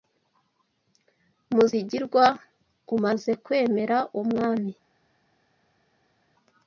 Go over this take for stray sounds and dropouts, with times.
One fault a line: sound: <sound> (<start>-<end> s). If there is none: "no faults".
no faults